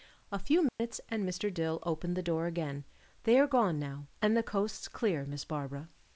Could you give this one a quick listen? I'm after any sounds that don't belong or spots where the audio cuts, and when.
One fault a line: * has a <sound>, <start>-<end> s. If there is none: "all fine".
* has a dropout, 0.7-0.8 s